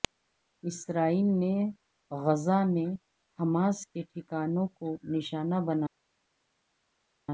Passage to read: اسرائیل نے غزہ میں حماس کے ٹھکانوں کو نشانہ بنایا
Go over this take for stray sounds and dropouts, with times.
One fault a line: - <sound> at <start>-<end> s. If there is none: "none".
none